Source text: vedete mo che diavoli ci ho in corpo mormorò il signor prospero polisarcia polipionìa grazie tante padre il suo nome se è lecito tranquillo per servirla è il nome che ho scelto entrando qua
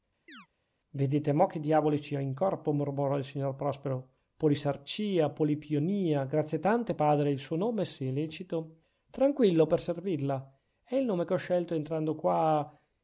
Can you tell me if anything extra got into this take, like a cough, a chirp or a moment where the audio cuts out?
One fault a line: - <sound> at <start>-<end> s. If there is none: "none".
- chirp at 0.3-0.5 s